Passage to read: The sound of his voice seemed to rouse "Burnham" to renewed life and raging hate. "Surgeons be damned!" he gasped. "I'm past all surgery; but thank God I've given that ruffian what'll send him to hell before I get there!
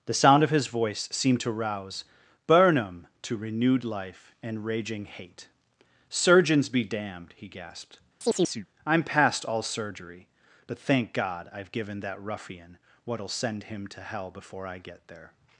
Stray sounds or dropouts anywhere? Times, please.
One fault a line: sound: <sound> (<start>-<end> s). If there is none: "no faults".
sound: chirp (8.2-8.7 s)